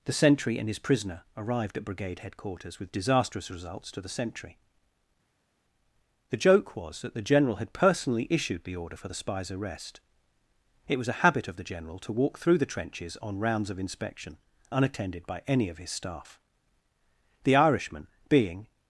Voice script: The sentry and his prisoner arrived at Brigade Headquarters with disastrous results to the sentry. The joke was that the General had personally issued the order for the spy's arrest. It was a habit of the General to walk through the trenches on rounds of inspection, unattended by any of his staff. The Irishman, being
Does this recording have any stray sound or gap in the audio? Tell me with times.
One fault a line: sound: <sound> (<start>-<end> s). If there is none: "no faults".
no faults